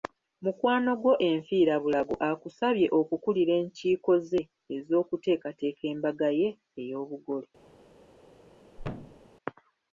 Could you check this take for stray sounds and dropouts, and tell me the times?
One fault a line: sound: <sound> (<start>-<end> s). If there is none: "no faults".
sound: thud (8.8-9.3 s)